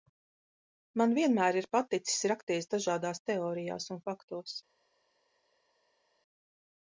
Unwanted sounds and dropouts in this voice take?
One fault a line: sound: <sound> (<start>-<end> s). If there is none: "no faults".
no faults